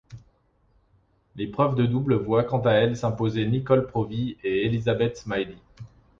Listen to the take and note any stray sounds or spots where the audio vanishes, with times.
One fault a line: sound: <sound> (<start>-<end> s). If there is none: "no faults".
no faults